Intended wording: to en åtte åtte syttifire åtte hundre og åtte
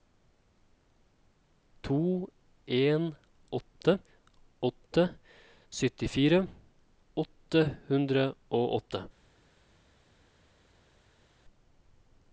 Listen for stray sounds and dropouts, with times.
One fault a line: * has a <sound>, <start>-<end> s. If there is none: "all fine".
all fine